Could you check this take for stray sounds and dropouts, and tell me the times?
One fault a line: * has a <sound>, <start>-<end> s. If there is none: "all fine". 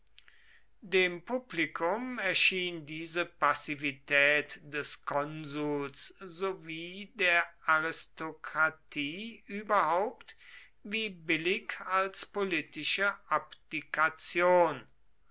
all fine